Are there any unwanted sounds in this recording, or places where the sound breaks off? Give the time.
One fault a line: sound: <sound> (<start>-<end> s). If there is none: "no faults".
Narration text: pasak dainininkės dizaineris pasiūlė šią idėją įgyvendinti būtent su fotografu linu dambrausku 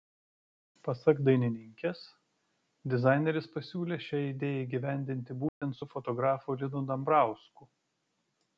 sound: dropout (5.5-5.6 s)